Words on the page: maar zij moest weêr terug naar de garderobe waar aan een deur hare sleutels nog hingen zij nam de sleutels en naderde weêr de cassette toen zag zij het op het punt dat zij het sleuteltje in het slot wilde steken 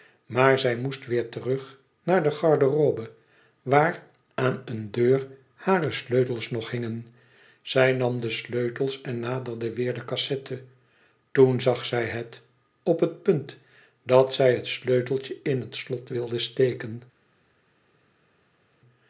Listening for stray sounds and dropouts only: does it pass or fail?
pass